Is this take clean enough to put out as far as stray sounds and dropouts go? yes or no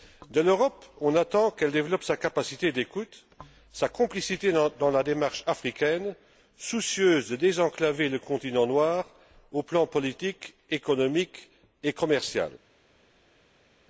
yes